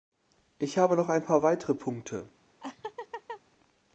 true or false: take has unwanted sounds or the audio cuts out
true